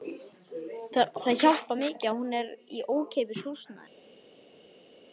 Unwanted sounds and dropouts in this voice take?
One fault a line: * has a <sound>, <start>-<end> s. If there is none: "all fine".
all fine